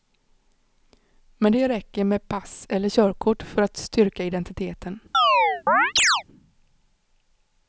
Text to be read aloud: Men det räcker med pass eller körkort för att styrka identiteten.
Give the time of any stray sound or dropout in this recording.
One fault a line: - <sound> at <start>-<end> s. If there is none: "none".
- chirp at 5.1-6.2 s